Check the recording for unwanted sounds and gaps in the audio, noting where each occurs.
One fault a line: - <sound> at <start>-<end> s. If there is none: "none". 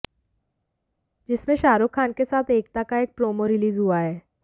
none